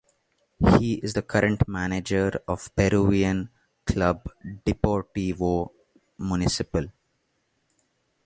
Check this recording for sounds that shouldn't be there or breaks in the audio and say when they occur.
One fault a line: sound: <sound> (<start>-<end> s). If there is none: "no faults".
no faults